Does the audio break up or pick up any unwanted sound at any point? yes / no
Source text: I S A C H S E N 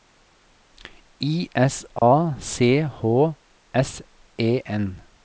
yes